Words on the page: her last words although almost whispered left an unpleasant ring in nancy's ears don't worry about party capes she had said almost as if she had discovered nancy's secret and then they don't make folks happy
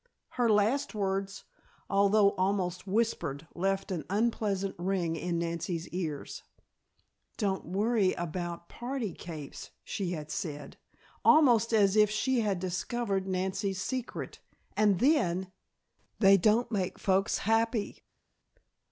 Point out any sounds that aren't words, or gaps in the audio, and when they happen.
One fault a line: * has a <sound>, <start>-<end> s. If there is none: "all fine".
all fine